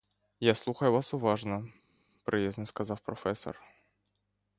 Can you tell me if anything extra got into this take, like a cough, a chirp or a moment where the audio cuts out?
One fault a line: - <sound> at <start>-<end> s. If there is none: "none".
none